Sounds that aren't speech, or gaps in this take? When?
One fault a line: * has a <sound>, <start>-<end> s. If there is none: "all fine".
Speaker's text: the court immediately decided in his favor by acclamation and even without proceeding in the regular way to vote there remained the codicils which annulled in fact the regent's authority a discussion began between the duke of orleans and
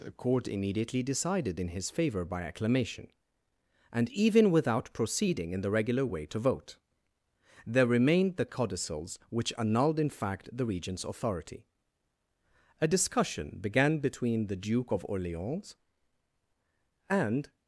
all fine